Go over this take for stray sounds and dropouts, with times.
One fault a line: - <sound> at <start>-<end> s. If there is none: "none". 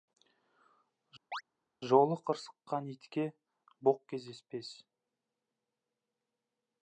- chirp at 1.3-1.4 s